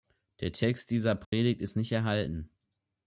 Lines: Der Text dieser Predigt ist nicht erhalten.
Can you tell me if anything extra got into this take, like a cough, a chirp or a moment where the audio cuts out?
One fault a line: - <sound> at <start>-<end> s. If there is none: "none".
- dropout at 1.2-1.3 s